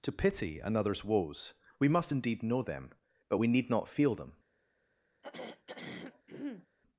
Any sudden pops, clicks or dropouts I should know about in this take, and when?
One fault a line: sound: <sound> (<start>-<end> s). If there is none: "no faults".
sound: throat clearing (5.2-6.7 s)